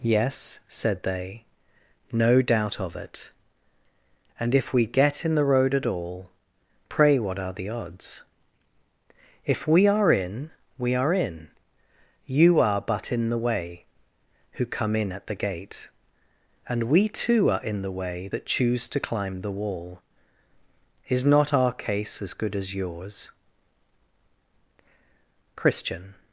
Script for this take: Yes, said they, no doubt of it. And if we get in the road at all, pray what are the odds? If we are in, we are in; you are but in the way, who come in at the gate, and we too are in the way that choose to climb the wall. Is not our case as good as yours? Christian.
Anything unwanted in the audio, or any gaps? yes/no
no